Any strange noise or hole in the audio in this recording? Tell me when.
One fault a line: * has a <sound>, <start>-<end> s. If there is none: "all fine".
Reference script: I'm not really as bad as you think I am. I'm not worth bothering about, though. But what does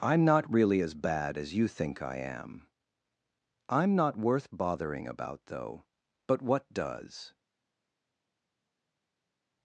all fine